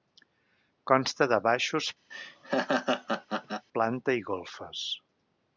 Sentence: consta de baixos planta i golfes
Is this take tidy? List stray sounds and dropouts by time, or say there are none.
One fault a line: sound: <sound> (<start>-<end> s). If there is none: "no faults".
sound: laugh (2.1-3.7 s)